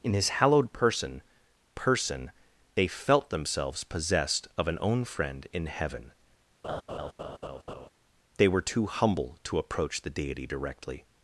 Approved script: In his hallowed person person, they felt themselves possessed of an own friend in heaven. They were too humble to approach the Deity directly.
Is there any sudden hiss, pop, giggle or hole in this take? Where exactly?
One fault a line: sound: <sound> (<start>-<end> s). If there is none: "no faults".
sound: laugh (6.6-7.9 s)